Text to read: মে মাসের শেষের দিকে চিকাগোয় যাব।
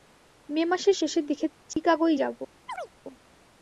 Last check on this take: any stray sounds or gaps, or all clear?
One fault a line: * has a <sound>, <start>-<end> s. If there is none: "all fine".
* has a dropout, 1.7-1.8 s
* has a chirp, 2.7-2.9 s